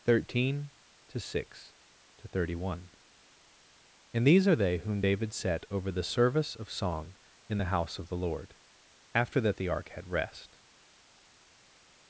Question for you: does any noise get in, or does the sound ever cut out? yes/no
no